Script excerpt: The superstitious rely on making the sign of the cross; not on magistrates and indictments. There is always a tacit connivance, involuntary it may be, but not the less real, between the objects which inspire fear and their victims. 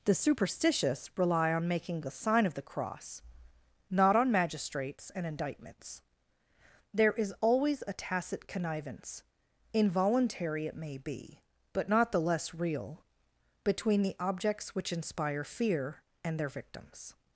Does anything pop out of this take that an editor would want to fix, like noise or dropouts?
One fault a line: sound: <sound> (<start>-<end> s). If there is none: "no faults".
no faults